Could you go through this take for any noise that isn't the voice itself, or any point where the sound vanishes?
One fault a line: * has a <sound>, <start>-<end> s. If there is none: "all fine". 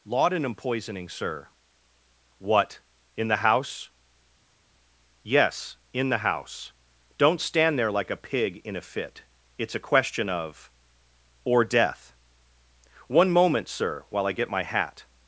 all fine